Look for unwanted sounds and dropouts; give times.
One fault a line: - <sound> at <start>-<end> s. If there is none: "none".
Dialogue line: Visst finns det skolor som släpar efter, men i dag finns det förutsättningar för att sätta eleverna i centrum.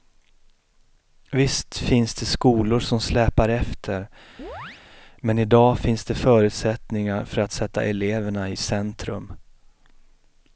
- chirp at 4.4-4.8 s